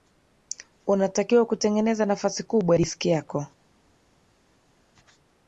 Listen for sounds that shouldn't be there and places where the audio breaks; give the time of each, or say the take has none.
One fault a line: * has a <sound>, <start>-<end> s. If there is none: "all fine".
all fine